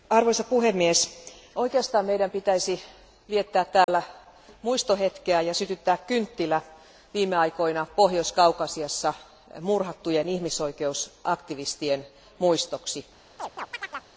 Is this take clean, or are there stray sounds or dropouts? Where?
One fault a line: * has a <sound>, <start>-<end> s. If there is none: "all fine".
* has a dropout, 3.8-3.9 s
* has a chirp, 13.4-14.1 s